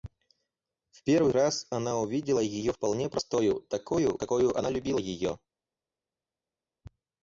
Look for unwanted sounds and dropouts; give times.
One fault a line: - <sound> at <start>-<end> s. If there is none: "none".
none